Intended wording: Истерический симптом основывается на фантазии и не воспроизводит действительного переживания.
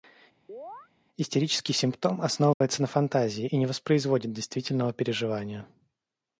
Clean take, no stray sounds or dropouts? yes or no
no